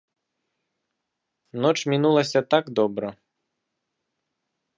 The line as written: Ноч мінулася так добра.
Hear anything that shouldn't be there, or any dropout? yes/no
no